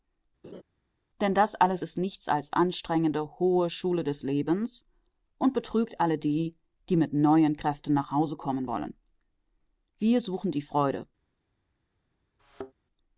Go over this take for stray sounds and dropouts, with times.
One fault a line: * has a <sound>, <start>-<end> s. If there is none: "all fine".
* has a laugh, 0.4-0.6 s
* has a thud, 12.4-12.7 s